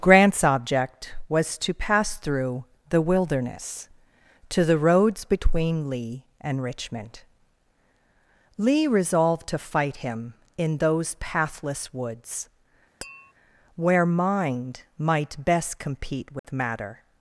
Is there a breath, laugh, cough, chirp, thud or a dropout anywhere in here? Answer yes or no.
yes